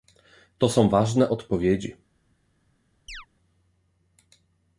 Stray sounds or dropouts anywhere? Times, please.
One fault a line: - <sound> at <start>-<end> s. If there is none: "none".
- chirp at 3.1-3.3 s